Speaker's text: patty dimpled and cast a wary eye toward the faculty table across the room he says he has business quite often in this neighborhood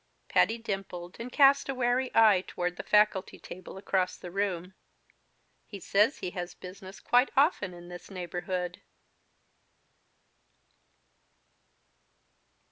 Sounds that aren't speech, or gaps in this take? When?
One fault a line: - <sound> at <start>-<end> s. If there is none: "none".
none